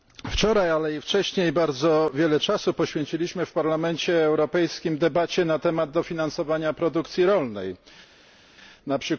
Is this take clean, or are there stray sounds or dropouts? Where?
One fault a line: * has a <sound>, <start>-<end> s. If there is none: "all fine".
all fine